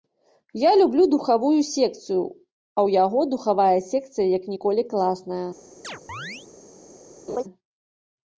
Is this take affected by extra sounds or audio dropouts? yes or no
yes